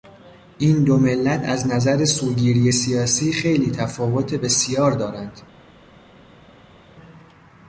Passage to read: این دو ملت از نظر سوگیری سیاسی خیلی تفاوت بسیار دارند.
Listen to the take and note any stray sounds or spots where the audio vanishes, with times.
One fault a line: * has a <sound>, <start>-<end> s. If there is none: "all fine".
all fine